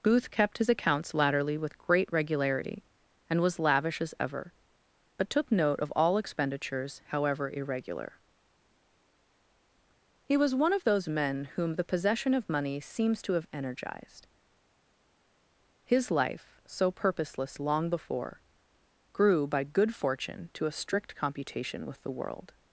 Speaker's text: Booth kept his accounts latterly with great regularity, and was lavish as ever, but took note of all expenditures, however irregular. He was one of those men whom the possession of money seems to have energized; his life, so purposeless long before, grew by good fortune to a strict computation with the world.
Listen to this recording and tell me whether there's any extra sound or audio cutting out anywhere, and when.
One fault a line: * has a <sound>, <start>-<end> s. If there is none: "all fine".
all fine